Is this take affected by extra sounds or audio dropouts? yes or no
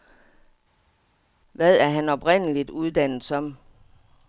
no